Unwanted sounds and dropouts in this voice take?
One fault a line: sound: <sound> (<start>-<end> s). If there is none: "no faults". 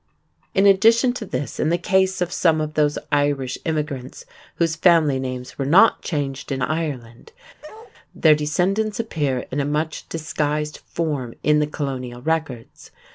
sound: bark (7.6-7.9 s)